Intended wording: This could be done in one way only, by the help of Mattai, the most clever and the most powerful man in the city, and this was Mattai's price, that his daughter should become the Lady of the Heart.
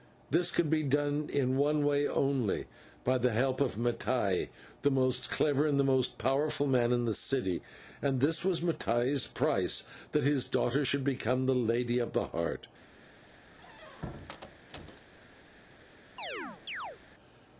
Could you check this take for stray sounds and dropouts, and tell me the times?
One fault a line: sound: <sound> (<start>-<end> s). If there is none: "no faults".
sound: squeak (13.5-15.1 s)
sound: chirp (16.2-17.0 s)